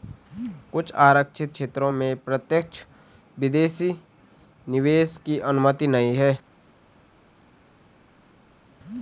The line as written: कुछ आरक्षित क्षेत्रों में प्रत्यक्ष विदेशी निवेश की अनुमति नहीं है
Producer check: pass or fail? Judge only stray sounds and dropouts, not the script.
pass